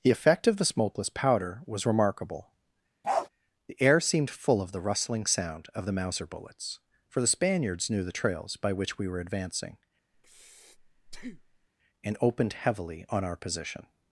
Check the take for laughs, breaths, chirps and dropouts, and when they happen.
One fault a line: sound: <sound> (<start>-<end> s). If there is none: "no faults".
sound: bark (3.0-3.3 s)
sound: breath (10.1-11.7 s)